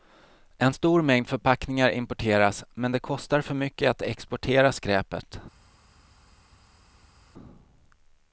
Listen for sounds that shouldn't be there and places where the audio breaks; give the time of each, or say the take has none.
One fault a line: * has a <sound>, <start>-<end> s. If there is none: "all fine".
all fine